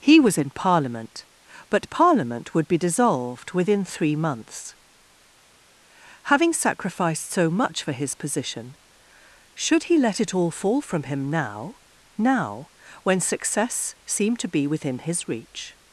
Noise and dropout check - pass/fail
pass